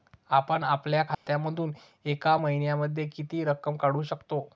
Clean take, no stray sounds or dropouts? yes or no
no